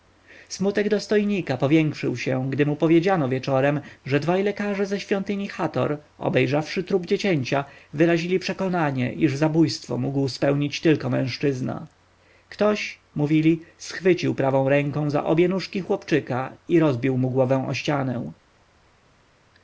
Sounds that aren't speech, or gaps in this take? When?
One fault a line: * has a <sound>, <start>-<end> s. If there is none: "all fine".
all fine